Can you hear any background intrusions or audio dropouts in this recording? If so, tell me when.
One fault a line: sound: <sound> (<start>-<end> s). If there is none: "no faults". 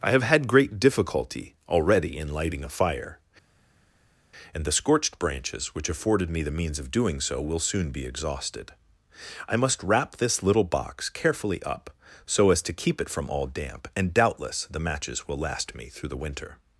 no faults